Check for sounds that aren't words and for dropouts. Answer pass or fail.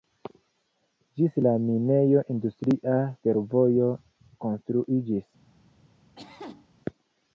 fail